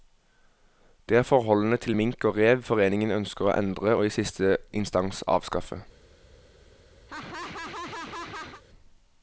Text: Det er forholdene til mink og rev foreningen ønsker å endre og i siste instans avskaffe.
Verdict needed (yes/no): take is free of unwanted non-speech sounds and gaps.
no